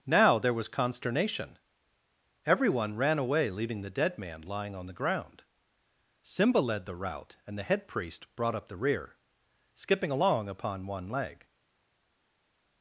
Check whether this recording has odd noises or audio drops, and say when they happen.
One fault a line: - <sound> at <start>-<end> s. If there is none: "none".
none